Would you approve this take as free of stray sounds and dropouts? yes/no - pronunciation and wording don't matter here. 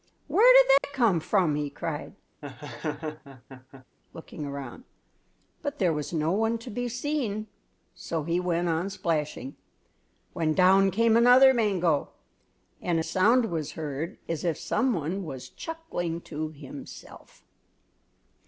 no